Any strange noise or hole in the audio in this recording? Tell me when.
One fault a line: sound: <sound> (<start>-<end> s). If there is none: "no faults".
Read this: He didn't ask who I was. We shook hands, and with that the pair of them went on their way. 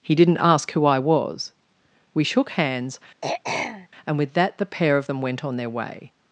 sound: throat clearing (3.2-3.9 s)